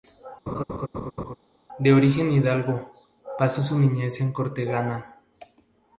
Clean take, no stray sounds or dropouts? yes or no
no